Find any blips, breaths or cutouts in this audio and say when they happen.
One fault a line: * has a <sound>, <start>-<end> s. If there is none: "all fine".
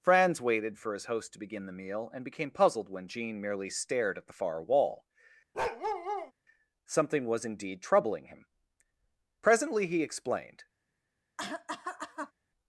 * has a bark, 5.5-6.3 s
* has a cough, 11.4-12.3 s